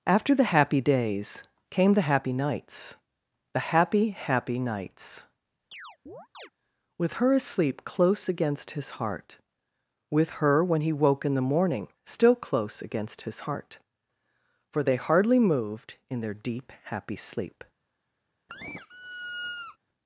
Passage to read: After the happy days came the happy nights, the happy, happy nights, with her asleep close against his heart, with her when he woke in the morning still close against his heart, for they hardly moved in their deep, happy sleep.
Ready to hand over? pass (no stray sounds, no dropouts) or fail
fail